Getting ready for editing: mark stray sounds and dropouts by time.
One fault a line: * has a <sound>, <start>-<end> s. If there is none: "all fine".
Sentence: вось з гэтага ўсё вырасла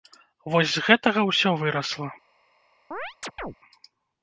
* has a chirp, 2.9-3.5 s